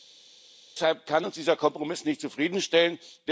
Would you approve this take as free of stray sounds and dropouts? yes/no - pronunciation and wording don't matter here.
yes